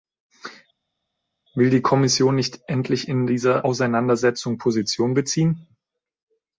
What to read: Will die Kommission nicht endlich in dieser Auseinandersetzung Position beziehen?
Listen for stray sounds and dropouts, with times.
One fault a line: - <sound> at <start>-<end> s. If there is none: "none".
none